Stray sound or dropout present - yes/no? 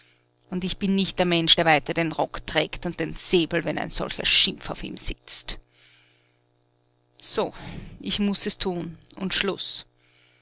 no